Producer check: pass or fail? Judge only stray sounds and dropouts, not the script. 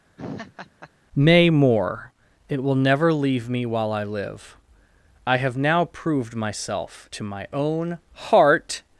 fail